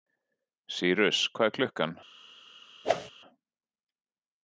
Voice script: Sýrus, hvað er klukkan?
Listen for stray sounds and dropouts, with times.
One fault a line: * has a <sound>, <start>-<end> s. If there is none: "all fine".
* has a whoosh, 2.8-3.1 s